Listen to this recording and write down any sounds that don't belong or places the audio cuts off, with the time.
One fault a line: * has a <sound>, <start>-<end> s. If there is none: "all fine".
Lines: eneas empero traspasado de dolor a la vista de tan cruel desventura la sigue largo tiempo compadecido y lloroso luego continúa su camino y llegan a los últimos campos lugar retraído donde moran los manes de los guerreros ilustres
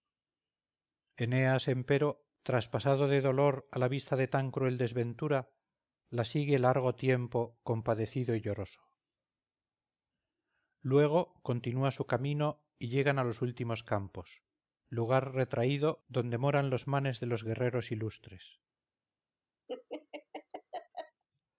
* has a laugh, 19.7-21.2 s